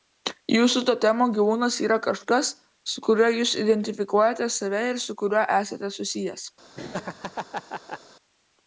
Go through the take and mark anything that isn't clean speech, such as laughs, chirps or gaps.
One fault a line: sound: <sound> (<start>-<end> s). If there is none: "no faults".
sound: laugh (6.7-8.0 s)